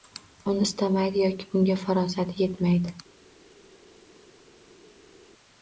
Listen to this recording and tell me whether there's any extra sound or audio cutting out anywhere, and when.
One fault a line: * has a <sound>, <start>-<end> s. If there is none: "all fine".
all fine